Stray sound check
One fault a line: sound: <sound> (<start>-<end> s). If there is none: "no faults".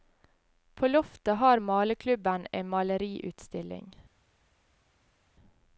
no faults